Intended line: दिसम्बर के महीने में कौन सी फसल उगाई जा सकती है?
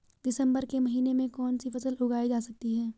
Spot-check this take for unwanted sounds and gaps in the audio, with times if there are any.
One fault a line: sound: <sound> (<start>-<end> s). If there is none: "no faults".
no faults